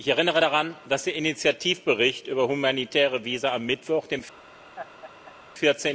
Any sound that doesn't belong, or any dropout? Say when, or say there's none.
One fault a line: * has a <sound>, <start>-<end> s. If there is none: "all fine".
* has a laugh, 4.8-5.4 s